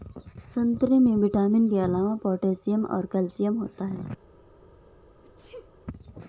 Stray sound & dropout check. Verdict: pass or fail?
fail